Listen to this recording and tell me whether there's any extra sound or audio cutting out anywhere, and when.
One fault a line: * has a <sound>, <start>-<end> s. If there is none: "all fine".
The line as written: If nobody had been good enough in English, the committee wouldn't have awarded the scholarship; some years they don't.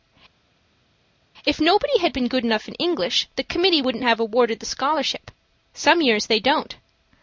all fine